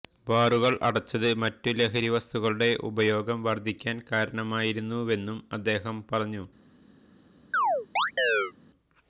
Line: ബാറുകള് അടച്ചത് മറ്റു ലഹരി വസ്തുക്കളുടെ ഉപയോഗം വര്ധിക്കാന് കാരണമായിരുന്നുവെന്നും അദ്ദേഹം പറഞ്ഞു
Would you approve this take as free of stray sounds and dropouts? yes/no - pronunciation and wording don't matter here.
no